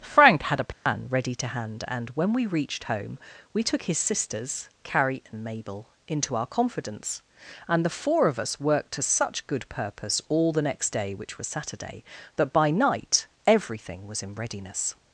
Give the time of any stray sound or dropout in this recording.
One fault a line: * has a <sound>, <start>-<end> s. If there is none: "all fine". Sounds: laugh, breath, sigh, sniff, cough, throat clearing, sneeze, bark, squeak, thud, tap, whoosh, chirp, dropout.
* has a dropout, 0.7-0.9 s